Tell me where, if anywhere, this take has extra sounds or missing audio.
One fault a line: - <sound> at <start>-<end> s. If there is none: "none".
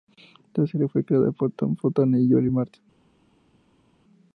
none